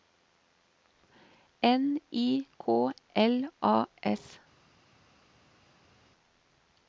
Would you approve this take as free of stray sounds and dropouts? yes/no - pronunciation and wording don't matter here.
yes